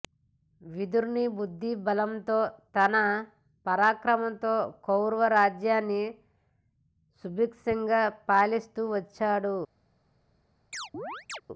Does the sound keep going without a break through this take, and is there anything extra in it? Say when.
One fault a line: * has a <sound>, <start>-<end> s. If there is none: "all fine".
* has a chirp, 10.7-11.4 s